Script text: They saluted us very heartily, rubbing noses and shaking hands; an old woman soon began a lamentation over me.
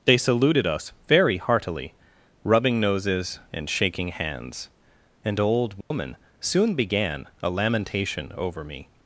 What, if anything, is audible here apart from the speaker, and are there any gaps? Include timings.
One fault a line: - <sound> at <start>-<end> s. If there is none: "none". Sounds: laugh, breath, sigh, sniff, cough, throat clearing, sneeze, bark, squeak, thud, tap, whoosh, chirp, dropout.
- dropout at 5.8-5.9 s